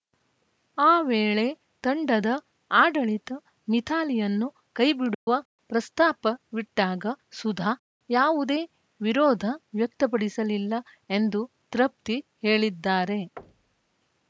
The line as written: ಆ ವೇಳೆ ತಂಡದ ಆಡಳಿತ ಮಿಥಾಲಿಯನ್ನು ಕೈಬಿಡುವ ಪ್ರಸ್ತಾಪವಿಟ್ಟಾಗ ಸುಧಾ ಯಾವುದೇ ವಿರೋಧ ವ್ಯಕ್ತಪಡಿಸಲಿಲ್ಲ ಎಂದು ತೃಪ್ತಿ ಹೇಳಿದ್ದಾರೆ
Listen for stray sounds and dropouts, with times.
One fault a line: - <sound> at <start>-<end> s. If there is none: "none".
- dropout at 5.1-5.3 s
- thud at 13.4-14.0 s